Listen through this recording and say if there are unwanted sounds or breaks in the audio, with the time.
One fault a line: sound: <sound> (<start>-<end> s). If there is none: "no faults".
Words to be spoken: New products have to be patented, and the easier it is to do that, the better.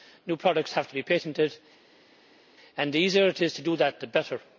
no faults